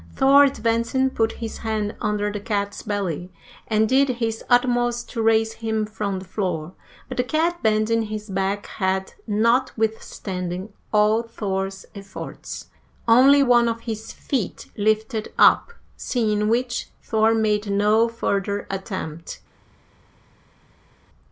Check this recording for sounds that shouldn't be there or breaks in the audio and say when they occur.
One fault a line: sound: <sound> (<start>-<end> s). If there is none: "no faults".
no faults